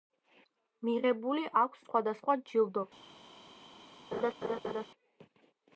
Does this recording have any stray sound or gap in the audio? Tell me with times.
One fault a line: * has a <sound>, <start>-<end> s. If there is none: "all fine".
* has a laugh, 4.1-4.9 s